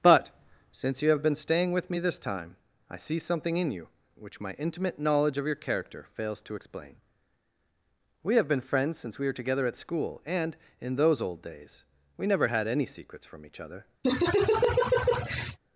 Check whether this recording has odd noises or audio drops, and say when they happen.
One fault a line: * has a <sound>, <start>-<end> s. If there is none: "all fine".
* has a laugh, 14.0-15.6 s